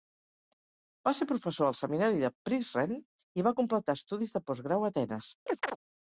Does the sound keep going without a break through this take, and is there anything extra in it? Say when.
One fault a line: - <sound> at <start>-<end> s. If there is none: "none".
- chirp at 5.5-5.8 s